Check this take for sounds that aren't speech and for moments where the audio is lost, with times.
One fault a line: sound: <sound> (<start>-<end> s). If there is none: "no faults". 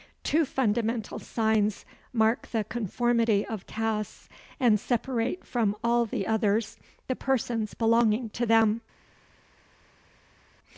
no faults